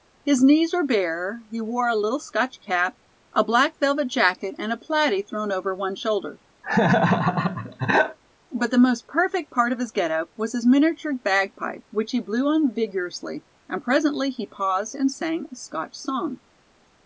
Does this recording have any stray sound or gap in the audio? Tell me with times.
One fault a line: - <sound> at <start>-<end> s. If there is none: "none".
- laugh at 6.6-8.2 s